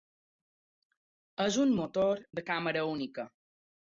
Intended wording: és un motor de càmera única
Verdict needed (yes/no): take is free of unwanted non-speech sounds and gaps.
yes